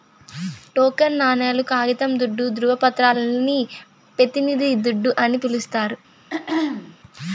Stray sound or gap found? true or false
true